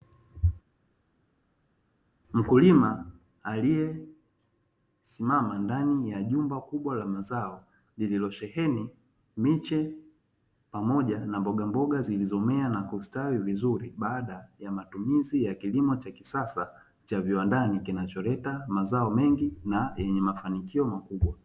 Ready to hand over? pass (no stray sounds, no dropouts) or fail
pass